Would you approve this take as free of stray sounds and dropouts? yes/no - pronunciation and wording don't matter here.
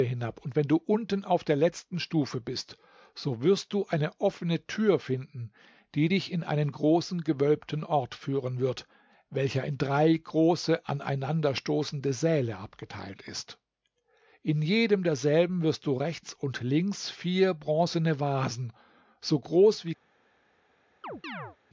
no